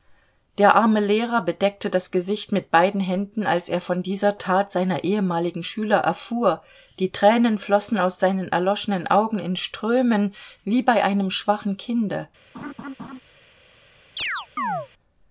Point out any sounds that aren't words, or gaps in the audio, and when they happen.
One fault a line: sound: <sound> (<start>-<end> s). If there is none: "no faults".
sound: laugh (12.5-13.2 s)
sound: chirp (14.2-14.9 s)